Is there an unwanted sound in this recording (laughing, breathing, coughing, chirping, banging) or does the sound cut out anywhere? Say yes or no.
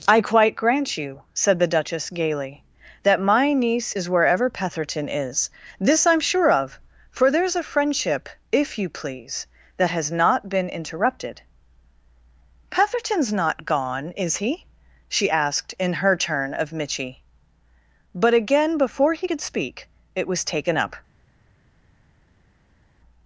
no